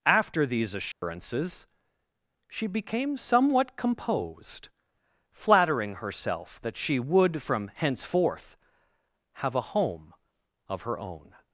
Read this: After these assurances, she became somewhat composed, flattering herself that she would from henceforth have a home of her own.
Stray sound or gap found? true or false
true